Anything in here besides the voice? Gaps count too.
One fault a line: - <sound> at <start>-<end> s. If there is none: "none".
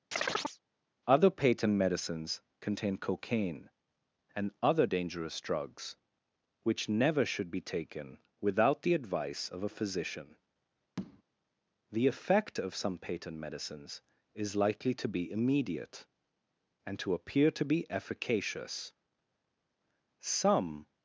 - chirp at 0.1-0.6 s
- tap at 11.0-11.2 s